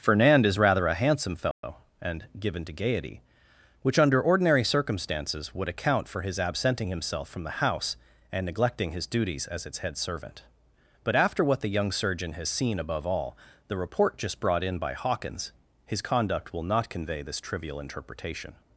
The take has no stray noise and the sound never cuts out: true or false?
false